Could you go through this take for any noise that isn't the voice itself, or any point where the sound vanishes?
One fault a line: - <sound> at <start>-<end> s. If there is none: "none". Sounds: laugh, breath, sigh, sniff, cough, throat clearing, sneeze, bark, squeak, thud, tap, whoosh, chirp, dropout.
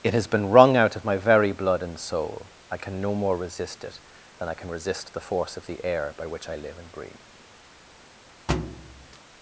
- thud at 8.5-9.2 s